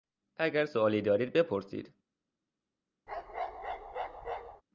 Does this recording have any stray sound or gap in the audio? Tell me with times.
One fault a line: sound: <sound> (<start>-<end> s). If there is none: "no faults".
sound: bark (3.1-4.6 s)